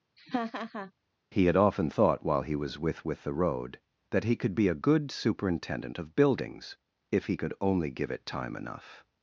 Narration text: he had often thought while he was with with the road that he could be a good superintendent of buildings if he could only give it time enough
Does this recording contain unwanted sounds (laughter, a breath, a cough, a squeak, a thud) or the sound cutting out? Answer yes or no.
yes